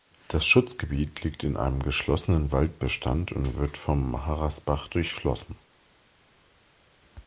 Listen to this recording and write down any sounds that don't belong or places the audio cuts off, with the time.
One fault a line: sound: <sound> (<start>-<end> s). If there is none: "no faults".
no faults